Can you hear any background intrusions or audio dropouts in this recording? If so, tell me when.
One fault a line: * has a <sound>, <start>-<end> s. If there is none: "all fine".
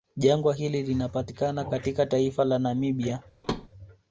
* has a thud, 3.4-3.7 s